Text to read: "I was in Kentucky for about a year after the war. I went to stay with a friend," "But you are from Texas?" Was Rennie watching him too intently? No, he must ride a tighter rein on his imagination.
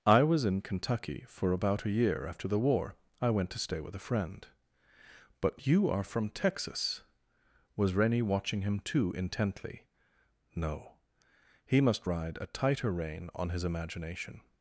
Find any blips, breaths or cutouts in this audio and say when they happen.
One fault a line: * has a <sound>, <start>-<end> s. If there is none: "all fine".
all fine